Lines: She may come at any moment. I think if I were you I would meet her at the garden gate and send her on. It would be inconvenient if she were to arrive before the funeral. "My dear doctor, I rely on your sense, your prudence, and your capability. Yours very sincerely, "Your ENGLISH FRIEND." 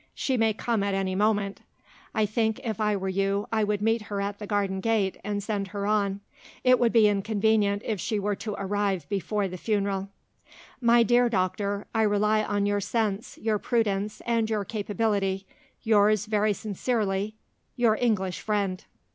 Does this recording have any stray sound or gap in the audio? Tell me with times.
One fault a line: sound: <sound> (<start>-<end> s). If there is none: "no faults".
no faults